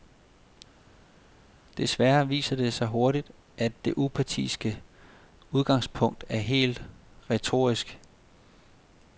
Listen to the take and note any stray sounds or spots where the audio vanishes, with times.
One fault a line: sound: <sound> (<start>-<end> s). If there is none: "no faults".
no faults